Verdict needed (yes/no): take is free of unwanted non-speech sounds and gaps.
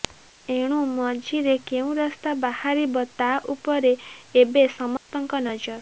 no